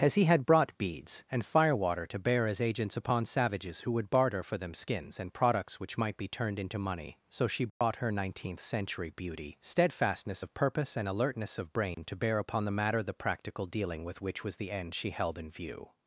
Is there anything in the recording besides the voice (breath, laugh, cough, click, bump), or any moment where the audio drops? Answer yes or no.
yes